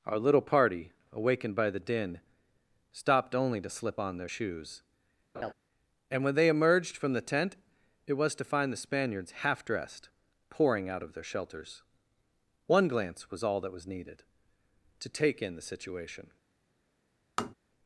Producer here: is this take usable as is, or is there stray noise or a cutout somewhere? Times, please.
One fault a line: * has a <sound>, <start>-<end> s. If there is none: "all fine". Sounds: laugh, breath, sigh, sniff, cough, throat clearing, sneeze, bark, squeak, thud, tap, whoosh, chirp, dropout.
* has a laugh, 5.3-5.5 s
* has a tap, 17.4-17.5 s